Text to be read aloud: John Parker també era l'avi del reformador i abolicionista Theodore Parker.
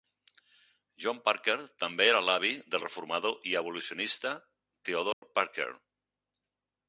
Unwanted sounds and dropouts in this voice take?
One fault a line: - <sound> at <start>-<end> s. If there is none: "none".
- dropout at 5.1-5.2 s